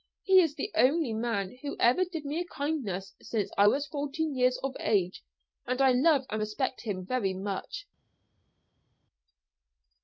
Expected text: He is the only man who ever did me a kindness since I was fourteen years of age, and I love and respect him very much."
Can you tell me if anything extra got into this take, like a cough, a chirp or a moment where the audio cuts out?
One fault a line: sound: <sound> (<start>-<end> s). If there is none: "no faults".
no faults